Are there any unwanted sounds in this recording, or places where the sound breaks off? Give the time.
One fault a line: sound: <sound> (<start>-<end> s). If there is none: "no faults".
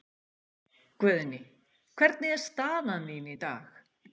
no faults